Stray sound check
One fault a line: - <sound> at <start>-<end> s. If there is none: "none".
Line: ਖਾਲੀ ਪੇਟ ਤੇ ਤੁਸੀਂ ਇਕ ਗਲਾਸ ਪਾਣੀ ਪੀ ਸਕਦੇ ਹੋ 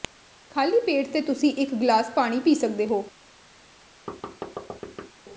- thud at 4.1-5.1 s